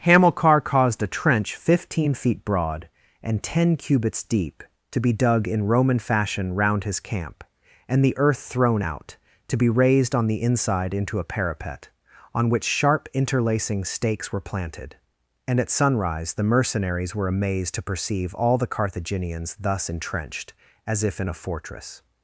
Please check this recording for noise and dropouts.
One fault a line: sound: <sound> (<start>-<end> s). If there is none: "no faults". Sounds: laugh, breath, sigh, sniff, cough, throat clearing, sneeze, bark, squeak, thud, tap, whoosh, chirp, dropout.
no faults